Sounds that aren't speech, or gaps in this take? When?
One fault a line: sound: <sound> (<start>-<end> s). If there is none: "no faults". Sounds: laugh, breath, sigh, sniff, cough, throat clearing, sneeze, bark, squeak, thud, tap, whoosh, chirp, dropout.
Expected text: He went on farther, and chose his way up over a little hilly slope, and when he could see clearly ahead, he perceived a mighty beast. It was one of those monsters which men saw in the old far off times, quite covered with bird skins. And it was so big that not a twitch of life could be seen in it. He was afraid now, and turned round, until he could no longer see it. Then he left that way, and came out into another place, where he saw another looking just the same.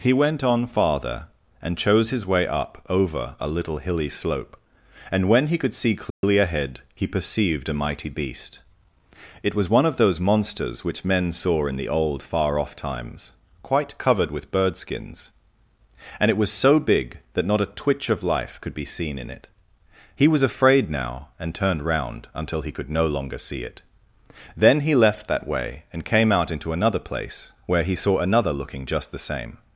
sound: dropout (6.1-6.2 s)